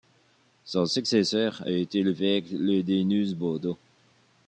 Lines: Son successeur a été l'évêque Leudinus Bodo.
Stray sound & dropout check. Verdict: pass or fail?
pass